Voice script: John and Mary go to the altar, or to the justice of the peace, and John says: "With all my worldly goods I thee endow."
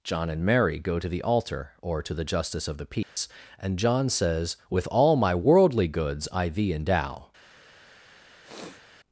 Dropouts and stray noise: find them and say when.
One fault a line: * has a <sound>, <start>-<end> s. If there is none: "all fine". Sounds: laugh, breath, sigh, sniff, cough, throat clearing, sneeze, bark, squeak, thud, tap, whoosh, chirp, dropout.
* has a dropout, 3.0-3.2 s
* has a sniff, 8.4-8.8 s